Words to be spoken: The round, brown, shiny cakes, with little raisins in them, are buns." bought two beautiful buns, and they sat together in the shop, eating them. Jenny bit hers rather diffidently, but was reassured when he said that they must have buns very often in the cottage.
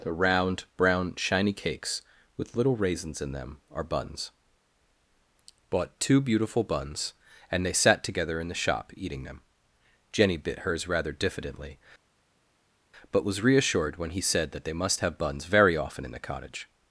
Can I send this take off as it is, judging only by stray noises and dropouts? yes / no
yes